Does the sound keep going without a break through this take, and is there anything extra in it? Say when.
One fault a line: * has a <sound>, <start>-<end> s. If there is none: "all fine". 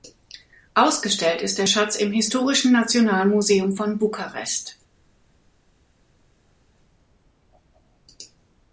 all fine